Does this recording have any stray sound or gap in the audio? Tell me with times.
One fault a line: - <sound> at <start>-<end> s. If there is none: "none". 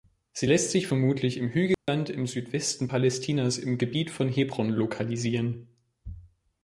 - dropout at 1.7-1.9 s